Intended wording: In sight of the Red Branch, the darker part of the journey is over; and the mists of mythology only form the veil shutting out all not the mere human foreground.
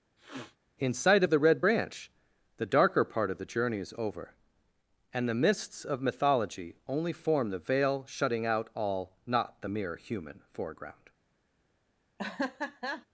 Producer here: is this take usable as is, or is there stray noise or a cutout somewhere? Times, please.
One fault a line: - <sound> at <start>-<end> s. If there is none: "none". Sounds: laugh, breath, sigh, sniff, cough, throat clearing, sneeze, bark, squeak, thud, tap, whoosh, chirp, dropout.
- sniff at 0.2-0.6 s
- laugh at 12.2-13.1 s